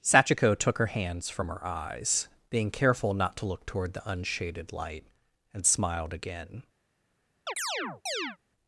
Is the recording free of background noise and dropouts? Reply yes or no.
no